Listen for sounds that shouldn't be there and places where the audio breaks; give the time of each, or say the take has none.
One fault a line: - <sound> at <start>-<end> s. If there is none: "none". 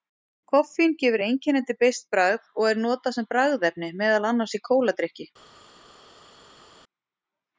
none